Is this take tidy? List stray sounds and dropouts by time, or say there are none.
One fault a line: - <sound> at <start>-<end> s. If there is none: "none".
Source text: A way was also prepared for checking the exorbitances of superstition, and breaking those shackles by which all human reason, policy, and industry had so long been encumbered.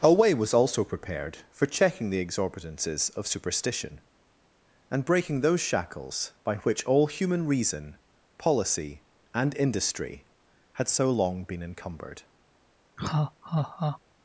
- laugh at 13.0-14.0 s